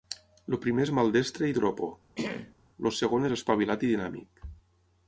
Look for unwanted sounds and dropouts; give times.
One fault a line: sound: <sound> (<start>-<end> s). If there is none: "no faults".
sound: throat clearing (2.2-2.6 s)